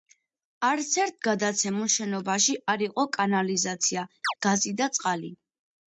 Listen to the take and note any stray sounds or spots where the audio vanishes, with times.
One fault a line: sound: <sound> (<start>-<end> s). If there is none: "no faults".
sound: chirp (4.2-4.3 s)